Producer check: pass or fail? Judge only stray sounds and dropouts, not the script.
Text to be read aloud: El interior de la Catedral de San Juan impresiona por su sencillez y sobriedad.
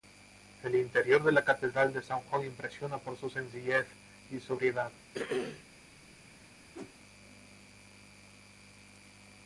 fail